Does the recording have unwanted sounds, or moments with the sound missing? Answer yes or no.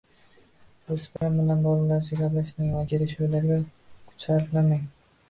yes